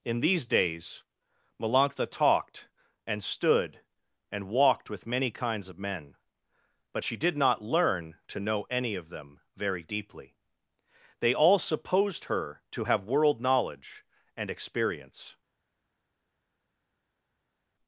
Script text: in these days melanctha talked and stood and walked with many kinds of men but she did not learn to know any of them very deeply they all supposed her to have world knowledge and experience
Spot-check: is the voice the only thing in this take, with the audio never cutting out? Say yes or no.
yes